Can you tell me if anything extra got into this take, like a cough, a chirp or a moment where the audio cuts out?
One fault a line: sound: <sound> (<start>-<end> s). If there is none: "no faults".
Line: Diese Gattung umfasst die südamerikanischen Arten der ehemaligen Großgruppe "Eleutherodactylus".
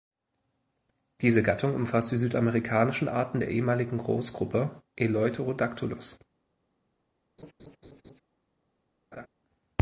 sound: laugh (7.4-8.2 s)
sound: laugh (9.1-9.3 s)